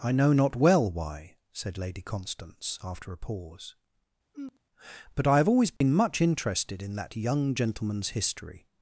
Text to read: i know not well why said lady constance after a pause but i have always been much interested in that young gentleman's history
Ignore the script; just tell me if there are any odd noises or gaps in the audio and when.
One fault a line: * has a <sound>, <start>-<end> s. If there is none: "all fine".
* has a sigh, 4.3-4.6 s
* has a dropout, 5.8-5.8 s